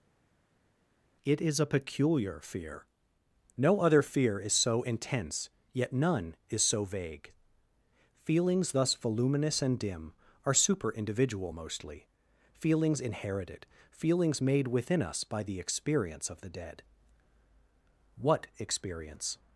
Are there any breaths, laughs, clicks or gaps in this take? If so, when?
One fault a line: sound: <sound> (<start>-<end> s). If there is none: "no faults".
no faults